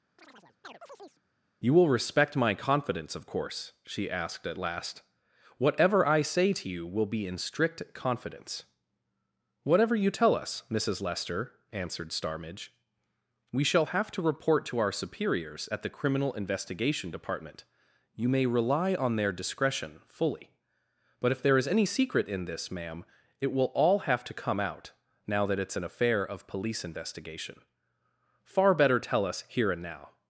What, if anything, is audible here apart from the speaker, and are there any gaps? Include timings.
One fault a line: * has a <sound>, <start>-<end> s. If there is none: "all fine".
* has a chirp, 0.2-1.2 s